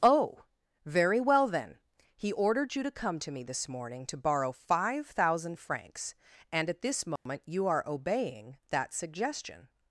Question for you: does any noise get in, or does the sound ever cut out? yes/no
yes